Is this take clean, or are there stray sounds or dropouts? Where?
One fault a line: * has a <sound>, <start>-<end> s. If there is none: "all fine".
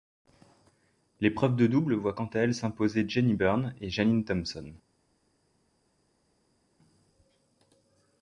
all fine